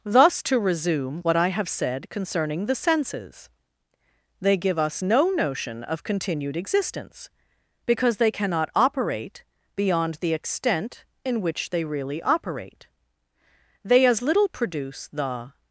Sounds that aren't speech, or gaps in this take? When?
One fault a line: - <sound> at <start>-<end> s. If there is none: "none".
none